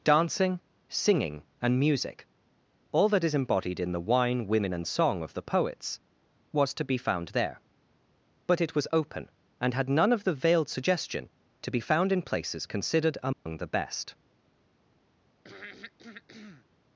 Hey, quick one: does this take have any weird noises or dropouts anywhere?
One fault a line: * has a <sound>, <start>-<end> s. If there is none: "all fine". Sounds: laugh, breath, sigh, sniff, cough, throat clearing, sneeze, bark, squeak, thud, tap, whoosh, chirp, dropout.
* has a dropout, 13.3-13.5 s
* has a throat clearing, 15.4-16.6 s